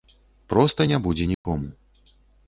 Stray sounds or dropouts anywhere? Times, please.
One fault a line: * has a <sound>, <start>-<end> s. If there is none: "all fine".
* has a dropout, 1.3-1.4 s